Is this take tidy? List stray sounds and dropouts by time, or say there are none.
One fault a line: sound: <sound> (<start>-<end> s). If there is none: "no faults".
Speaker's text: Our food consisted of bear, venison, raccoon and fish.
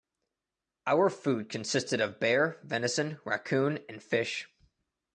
no faults